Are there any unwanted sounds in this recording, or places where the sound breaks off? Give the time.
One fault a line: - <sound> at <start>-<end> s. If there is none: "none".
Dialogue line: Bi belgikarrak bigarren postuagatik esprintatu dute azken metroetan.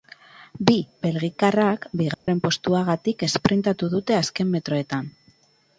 - dropout at 2.1-2.3 s